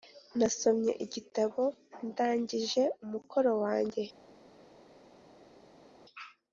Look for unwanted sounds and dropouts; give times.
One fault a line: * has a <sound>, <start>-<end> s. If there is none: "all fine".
all fine